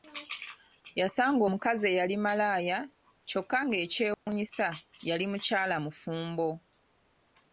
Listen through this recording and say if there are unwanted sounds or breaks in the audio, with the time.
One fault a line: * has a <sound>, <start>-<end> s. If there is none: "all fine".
* has a dropout, 4.1-4.3 s